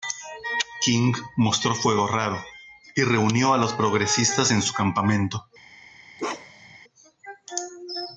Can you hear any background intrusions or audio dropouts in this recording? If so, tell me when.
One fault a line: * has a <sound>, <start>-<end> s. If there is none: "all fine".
* has a bark, 6.2-6.8 s